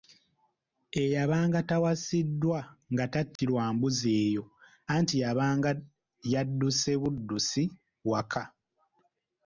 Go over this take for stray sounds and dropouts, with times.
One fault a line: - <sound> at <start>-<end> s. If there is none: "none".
- dropout at 3.4-3.4 s